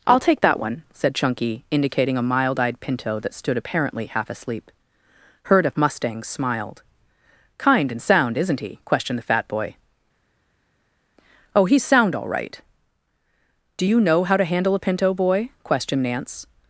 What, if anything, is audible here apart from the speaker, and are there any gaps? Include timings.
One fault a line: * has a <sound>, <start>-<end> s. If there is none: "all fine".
all fine